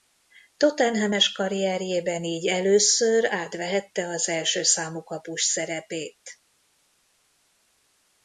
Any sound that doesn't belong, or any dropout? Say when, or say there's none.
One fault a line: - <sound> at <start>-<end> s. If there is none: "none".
none